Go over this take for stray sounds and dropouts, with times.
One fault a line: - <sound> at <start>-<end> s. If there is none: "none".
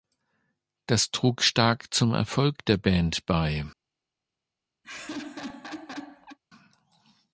- laugh at 4.8-6.4 s